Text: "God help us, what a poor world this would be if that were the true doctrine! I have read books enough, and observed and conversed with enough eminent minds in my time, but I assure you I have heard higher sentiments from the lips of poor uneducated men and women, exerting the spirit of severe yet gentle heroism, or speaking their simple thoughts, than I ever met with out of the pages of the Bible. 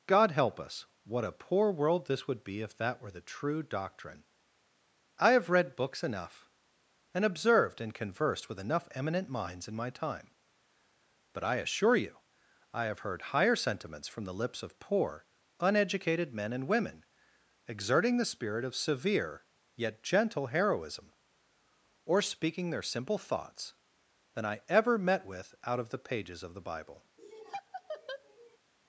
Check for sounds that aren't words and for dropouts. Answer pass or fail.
fail